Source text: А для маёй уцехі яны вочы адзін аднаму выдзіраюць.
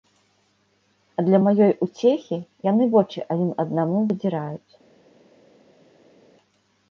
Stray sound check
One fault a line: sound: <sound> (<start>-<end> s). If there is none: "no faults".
no faults